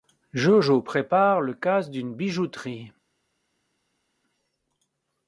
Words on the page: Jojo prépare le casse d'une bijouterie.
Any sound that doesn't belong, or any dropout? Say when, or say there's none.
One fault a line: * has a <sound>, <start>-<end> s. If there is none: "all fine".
all fine